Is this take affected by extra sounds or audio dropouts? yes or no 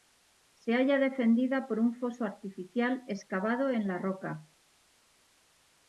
no